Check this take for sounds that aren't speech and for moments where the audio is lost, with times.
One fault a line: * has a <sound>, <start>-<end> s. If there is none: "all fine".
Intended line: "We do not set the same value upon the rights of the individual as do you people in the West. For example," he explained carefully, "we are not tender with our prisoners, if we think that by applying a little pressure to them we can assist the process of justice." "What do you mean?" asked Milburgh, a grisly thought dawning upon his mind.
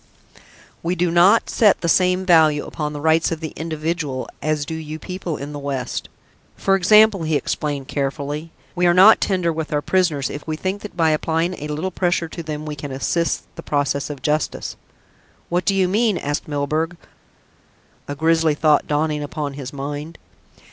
all fine